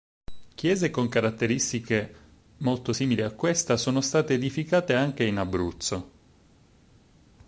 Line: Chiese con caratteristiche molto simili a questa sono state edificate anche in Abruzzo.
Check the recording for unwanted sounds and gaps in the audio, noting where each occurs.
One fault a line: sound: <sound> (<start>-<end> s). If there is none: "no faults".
no faults